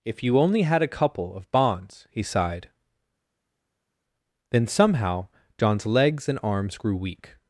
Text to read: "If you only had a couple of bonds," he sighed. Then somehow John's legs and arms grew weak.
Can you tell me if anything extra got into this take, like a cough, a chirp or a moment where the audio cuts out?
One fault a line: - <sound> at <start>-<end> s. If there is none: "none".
none